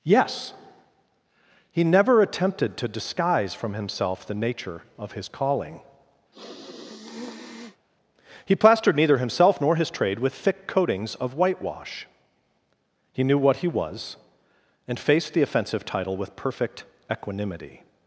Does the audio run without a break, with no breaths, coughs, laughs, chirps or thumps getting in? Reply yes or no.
no